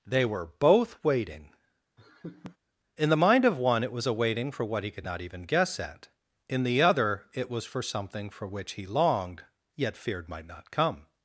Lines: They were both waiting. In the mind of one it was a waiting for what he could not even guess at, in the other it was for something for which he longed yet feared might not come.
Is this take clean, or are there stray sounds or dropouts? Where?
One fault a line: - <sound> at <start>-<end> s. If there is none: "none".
- laugh at 2.0-2.6 s